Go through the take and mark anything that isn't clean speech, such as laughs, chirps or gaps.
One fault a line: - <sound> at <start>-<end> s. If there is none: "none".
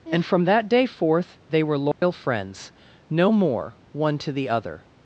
- dropout at 1.9-2.0 s